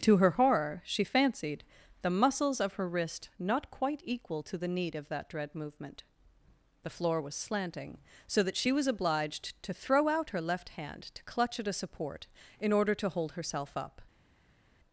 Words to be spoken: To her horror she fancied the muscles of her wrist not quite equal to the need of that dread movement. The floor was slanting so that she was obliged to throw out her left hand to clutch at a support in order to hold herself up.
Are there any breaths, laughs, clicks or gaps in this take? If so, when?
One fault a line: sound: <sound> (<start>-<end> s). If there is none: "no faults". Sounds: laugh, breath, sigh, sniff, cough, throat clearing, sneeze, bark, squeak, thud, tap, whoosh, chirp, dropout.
no faults